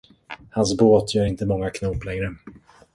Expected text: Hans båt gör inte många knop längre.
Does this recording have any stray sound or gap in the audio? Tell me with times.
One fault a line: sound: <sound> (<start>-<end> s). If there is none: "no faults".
no faults